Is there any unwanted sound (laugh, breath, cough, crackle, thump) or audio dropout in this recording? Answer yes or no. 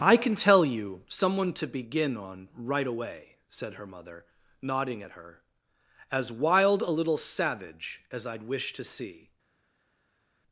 no